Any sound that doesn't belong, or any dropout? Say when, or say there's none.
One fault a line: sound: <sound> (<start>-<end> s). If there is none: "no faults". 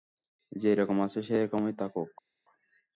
no faults